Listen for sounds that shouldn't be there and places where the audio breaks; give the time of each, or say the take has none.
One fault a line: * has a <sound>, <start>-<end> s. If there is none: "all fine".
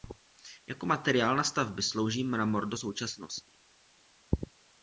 all fine